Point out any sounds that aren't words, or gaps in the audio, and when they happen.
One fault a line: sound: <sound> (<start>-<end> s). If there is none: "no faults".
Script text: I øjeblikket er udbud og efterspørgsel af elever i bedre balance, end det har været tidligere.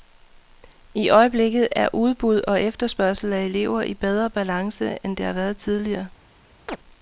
sound: chirp (6.7-6.8 s)